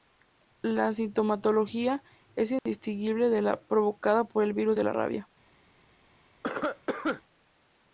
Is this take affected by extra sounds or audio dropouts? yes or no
yes